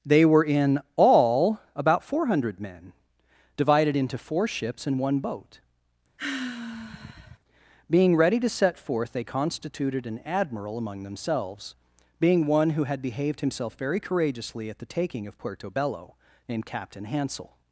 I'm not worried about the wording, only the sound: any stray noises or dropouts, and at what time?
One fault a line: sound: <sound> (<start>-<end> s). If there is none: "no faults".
sound: sigh (6.2-7.4 s)